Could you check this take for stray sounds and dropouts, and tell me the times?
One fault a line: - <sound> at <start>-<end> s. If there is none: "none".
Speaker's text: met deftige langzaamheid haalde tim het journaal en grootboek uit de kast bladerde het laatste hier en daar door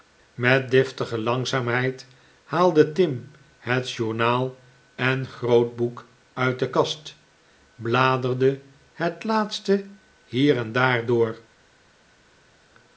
none